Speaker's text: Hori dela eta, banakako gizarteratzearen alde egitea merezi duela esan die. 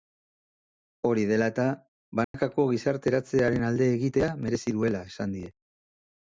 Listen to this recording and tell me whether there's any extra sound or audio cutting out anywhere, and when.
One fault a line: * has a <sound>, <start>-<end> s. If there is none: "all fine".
* has a dropout, 2.2-2.3 s